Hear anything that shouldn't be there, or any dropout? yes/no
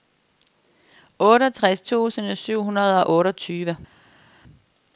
no